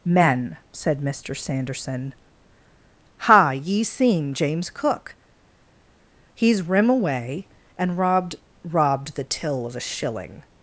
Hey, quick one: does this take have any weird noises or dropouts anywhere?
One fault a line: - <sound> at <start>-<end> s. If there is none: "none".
none